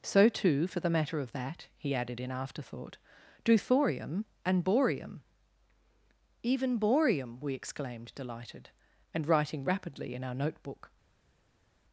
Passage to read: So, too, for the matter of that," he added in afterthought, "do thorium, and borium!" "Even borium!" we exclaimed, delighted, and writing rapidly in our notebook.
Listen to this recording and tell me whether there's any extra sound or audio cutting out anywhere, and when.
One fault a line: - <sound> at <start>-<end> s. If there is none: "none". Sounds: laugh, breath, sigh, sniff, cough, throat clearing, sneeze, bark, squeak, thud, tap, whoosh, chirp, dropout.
none